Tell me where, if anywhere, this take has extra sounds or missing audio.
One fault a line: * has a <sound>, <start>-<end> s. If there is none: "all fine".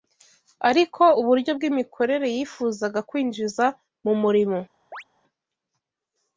* has a chirp, 4.9-5.0 s